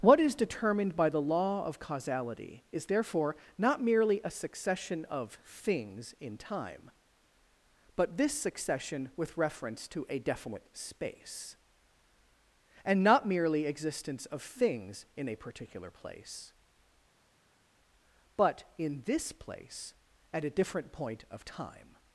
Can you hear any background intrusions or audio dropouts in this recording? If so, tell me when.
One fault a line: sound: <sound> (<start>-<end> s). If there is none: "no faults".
no faults